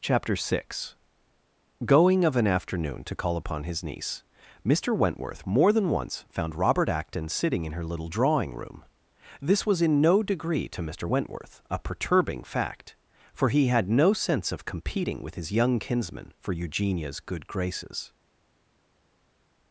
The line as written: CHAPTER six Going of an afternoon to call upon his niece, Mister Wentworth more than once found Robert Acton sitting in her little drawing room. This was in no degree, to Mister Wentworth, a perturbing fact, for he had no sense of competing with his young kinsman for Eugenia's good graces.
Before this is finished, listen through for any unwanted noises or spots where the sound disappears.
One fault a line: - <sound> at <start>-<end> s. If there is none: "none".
none